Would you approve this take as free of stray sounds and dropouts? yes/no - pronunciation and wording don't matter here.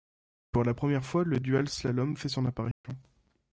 no